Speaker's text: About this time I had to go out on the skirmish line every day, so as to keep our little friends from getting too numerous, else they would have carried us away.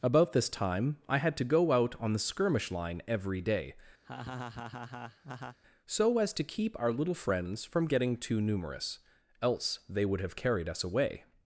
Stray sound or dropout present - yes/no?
yes